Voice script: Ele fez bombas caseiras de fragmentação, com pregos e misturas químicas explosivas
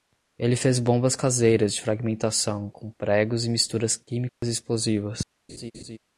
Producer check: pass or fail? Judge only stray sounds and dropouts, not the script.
fail